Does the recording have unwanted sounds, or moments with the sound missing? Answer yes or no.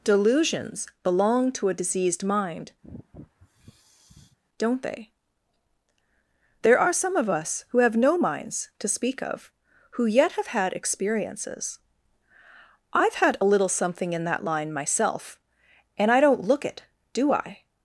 yes